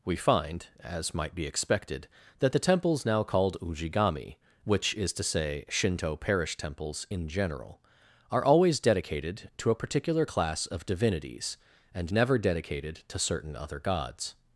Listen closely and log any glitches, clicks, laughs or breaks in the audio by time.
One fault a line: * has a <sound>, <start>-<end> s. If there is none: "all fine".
all fine